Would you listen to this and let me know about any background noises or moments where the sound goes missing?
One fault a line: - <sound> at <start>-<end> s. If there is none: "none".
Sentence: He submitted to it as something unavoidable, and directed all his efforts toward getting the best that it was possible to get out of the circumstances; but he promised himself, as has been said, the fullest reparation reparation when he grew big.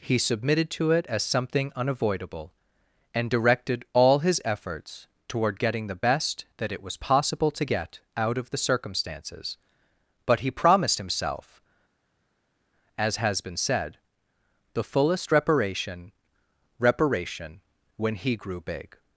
none